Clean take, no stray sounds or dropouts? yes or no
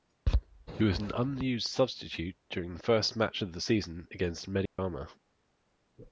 no